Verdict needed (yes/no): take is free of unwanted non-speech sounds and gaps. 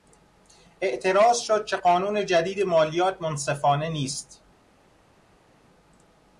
yes